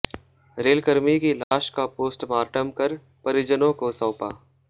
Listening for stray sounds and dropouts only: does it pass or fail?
fail